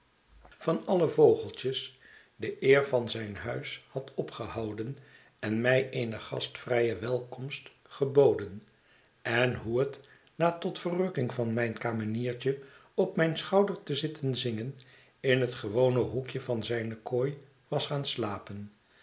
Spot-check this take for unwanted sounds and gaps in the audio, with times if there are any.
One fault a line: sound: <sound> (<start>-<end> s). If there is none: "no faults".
no faults